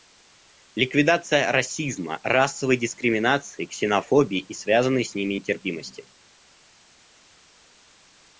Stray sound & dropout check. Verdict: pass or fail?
pass